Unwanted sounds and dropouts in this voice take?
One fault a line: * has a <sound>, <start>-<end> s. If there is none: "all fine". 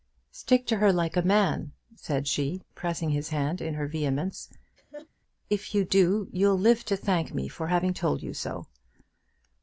* has a laugh, 4.8-5.1 s